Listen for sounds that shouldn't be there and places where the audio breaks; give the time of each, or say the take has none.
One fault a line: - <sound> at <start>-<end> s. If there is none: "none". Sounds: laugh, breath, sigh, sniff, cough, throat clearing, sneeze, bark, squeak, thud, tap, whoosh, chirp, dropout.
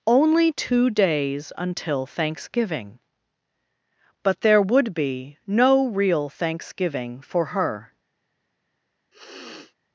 - sniff at 9.1-9.8 s